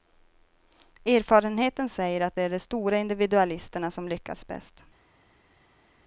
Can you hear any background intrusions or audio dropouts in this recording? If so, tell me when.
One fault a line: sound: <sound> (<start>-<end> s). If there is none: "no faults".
no faults